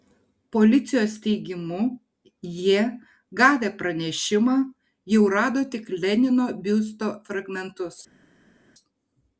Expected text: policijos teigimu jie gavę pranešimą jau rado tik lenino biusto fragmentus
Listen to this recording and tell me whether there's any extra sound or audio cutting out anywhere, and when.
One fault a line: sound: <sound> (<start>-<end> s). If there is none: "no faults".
no faults